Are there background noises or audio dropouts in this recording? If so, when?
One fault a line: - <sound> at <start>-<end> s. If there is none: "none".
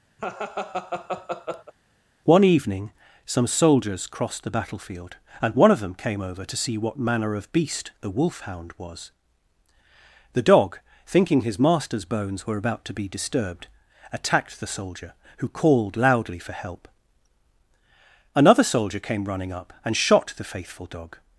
- laugh at 0.2-1.7 s